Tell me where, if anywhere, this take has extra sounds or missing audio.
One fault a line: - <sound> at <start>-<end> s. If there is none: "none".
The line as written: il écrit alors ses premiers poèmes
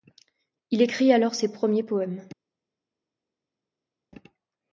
none